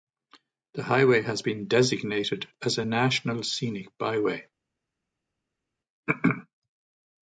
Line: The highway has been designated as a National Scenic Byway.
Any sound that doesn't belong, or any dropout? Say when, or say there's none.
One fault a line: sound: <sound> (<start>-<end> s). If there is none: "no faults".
no faults